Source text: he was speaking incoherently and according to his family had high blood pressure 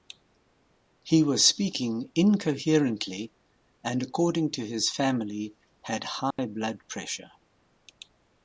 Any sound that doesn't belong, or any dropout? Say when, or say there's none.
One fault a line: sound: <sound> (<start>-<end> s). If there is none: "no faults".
sound: dropout (6.3-6.4 s)